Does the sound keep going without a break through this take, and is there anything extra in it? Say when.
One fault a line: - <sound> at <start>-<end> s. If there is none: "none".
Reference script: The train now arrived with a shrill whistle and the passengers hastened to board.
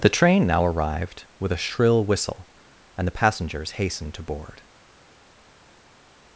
none